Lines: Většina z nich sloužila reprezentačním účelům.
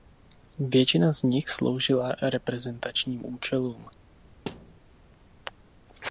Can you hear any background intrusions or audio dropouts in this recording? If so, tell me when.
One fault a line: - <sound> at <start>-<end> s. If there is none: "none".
- thud at 4.5-4.8 s